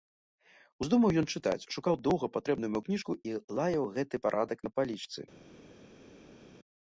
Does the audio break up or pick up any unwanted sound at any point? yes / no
no